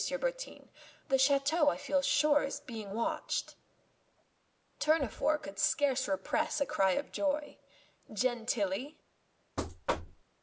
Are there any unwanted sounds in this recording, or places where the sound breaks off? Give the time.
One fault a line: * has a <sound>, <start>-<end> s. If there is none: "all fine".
* has a thud, 9.6-10.2 s